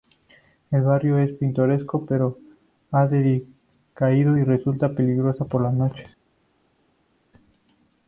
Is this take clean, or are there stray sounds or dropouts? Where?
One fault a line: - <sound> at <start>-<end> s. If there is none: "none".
none